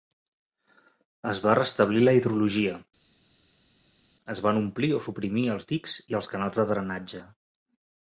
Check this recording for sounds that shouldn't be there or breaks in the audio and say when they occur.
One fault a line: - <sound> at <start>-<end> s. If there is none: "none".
none